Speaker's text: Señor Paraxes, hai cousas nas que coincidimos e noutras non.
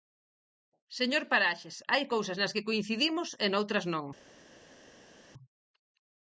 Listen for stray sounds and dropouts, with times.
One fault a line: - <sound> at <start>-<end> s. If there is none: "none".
none